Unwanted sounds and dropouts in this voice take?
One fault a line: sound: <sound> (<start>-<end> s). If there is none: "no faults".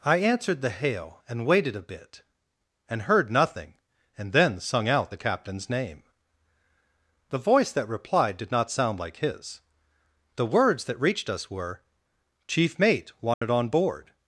sound: dropout (13.3-13.4 s)